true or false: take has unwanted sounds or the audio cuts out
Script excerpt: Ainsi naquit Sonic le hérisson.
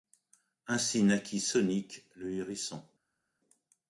false